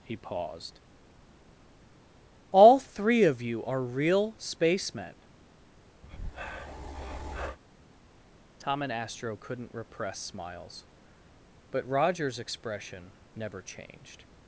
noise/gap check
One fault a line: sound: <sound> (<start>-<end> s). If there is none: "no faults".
sound: breath (6.0-7.6 s)